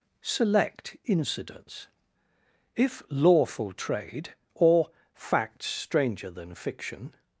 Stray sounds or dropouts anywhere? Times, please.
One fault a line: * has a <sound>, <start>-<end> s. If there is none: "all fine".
all fine